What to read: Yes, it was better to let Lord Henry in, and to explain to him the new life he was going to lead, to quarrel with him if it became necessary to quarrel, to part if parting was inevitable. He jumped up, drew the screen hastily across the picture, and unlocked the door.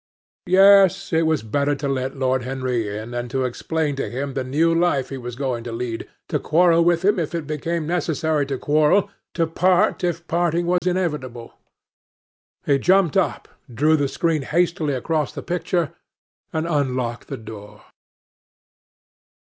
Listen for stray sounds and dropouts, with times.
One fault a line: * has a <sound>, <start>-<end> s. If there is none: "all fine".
* has a dropout, 10.8-10.8 s